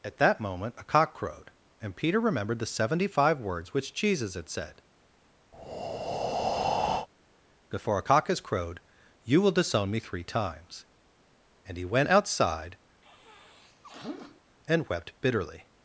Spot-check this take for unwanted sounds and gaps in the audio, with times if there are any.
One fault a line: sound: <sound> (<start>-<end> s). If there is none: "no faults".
sound: breath (5.5-7.1 s)
sound: sniff (13.0-14.4 s)